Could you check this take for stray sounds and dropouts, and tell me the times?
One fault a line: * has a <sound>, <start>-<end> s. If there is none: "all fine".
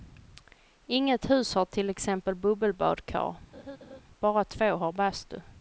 * has a laugh, 3.5-4.0 s